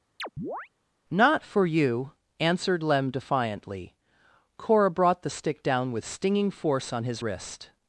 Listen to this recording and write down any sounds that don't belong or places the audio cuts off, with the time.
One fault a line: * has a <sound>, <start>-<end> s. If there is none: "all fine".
* has a chirp, 0.2-0.7 s